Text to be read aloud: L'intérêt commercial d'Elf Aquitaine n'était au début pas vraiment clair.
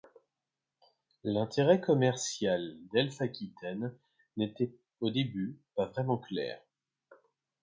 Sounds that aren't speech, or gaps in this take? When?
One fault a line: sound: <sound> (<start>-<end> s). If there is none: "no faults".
no faults